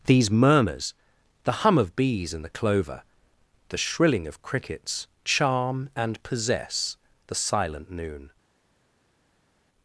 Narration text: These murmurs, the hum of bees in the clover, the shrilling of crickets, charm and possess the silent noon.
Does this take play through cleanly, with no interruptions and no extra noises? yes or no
yes